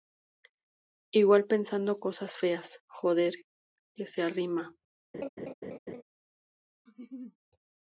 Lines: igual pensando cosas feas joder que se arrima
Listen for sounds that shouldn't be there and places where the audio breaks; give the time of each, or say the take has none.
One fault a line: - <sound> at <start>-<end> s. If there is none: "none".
- laugh at 5.1-6.0 s
- laugh at 6.9-7.4 s